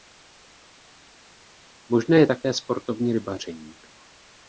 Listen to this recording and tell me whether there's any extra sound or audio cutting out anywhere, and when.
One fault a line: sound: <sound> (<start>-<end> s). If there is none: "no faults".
no faults